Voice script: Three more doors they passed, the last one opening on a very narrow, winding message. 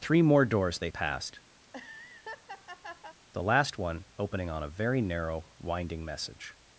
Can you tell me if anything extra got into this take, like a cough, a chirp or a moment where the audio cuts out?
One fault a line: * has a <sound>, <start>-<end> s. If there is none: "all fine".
* has a laugh, 1.6-3.2 s